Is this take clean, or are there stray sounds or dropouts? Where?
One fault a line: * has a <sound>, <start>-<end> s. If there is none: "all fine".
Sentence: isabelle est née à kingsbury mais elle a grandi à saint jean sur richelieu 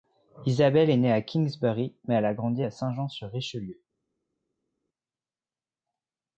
all fine